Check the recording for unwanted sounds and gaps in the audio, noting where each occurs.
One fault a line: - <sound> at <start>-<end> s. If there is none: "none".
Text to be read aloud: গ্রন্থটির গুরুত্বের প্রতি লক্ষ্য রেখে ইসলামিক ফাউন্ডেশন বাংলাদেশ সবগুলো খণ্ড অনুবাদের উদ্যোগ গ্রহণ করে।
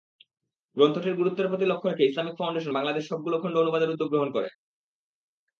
none